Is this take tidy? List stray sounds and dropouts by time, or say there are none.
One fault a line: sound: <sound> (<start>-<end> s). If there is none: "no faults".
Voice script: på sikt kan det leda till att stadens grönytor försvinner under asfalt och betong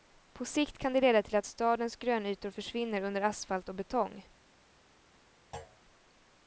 sound: thud (5.5-5.8 s)